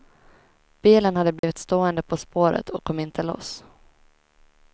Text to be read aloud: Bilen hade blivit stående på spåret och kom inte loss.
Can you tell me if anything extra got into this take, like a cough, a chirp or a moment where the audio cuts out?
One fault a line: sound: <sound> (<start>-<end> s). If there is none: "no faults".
sound: dropout (1.4-1.4 s)